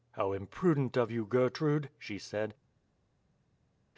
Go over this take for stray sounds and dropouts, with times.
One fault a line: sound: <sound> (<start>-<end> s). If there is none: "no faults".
no faults